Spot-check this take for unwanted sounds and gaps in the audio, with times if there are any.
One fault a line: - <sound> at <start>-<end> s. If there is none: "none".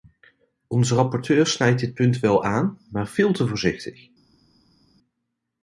none